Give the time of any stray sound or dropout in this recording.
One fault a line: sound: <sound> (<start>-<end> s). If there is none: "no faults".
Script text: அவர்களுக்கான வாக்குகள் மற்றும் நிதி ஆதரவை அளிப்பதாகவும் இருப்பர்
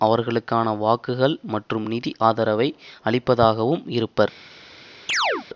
sound: chirp (5.1-5.5 s)